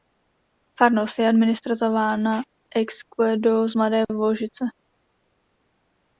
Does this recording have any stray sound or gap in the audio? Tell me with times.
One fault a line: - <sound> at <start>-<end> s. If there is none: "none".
none